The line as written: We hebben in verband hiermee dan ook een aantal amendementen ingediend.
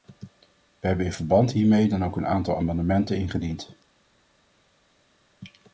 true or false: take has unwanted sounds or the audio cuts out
false